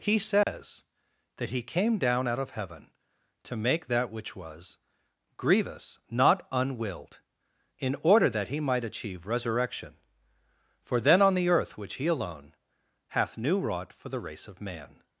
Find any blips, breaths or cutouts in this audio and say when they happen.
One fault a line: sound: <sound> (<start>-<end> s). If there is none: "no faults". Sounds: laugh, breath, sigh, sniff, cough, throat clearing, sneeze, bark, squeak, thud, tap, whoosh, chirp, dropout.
sound: dropout (0.4-0.5 s)